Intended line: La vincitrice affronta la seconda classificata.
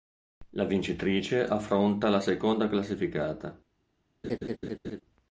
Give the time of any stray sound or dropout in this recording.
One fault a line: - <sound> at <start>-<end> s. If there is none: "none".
- laugh at 4.2-5.0 s